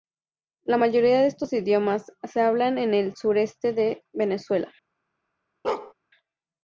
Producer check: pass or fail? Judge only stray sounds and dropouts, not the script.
fail